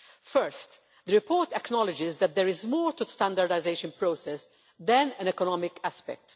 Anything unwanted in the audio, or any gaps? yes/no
no